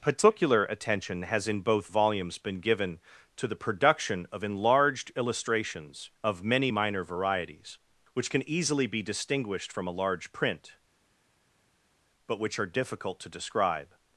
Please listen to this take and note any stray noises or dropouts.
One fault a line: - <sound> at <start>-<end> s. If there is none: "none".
none